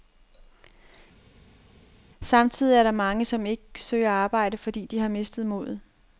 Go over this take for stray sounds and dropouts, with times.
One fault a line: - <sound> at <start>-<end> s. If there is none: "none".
none